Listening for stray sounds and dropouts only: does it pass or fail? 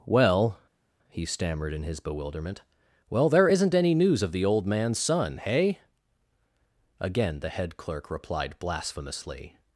pass